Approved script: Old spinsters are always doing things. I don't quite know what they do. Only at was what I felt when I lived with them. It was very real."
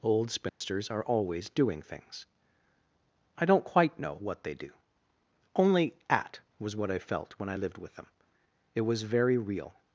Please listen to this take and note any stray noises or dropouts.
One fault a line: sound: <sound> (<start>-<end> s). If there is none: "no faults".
sound: dropout (0.5-0.6 s)